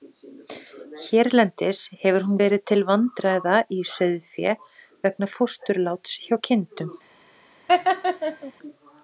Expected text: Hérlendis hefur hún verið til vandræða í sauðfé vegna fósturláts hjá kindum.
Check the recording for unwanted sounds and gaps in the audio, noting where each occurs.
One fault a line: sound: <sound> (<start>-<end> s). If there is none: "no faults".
sound: laugh (7.7-8.5 s)